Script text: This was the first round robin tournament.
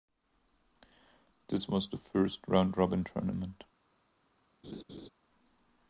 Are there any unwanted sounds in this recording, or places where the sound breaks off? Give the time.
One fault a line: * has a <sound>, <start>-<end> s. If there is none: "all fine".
* has a laugh, 4.6-5.1 s